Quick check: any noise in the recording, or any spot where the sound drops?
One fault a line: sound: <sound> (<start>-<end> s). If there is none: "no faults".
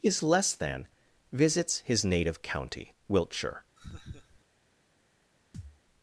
sound: laugh (3.8-4.4 s)
sound: thud (5.5-5.8 s)